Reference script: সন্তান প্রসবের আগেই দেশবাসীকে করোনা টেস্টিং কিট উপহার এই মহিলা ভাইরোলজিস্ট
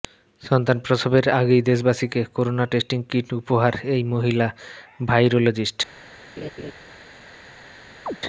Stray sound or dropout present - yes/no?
yes